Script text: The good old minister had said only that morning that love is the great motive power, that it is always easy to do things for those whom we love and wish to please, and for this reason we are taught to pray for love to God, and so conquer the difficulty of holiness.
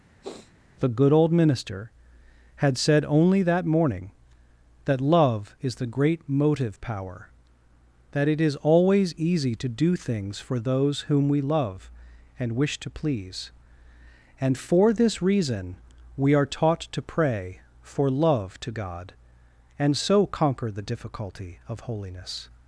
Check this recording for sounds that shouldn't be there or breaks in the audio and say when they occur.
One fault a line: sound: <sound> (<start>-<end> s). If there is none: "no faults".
sound: sniff (0.2-0.5 s)